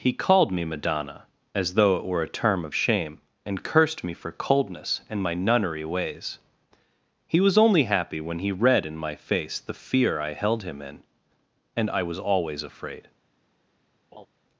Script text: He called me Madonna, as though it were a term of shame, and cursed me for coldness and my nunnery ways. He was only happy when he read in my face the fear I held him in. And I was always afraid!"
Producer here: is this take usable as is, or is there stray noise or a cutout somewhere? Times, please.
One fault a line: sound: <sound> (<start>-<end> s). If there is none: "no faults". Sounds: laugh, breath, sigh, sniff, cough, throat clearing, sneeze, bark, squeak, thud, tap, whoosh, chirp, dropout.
sound: laugh (14.1-14.3 s)